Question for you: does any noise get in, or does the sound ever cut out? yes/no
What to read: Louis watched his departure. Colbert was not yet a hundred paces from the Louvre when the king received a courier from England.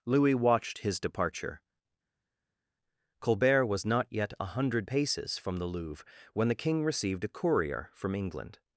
no